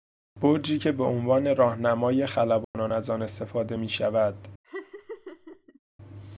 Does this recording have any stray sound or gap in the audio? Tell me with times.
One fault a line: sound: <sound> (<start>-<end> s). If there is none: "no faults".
sound: dropout (2.6-2.7 s)
sound: laugh (4.6-5.8 s)